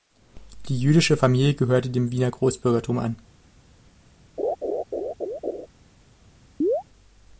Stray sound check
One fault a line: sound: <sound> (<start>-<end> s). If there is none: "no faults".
sound: laugh (4.4-5.7 s)
sound: chirp (6.6-6.8 s)